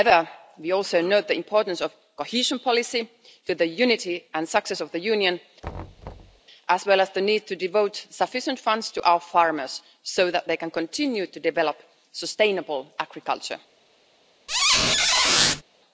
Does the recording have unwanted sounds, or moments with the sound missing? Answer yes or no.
yes